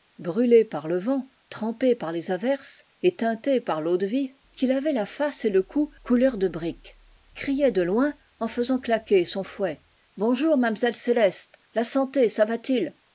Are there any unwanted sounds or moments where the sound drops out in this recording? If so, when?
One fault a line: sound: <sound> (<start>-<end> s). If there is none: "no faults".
no faults